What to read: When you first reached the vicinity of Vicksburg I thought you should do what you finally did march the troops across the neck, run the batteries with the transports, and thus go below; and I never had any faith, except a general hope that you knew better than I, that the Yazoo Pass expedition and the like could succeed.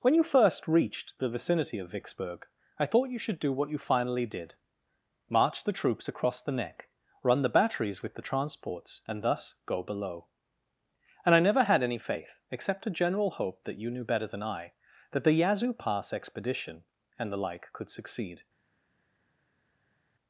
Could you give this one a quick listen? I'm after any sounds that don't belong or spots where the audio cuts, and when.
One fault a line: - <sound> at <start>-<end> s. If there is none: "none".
none